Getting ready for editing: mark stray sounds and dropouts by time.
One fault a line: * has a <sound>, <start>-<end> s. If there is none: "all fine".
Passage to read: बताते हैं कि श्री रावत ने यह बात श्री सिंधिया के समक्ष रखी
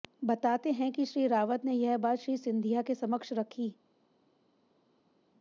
all fine